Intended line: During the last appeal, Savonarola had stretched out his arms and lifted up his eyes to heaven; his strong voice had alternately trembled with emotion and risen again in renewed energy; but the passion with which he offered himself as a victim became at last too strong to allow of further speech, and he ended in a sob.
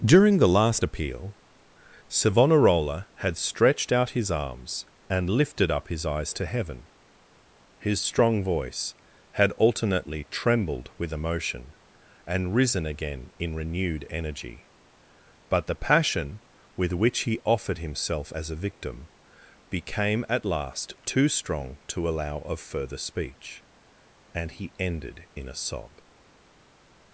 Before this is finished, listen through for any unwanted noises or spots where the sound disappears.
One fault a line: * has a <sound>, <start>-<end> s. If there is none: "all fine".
all fine